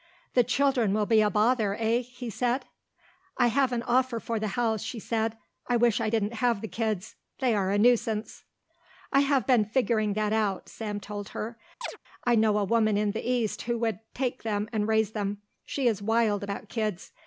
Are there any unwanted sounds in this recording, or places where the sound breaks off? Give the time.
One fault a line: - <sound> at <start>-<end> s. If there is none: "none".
- chirp at 11.8-12.0 s